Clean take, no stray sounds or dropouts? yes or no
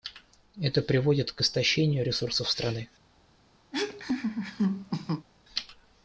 no